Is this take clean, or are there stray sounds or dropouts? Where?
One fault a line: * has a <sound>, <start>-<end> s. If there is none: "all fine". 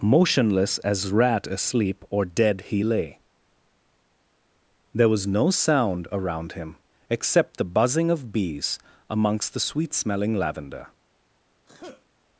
* has a sneeze, 11.7-12.1 s